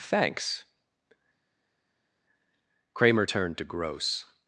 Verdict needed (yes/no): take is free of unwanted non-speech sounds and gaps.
yes